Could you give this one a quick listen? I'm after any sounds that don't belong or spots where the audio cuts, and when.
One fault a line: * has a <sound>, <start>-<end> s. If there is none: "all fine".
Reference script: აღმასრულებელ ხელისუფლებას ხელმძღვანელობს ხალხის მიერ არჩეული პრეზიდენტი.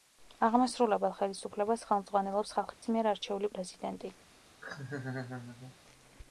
* has a dropout, 2.7-2.8 s
* has a laugh, 4.6-5.8 s